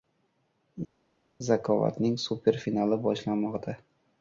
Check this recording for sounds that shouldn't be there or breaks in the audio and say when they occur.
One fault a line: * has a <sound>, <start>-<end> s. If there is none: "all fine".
all fine